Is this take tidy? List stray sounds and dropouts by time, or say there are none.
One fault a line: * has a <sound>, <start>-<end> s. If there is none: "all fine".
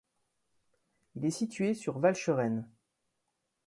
all fine